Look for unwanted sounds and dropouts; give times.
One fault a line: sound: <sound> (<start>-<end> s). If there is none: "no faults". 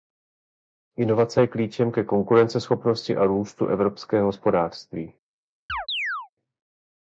sound: chirp (5.7-6.3 s)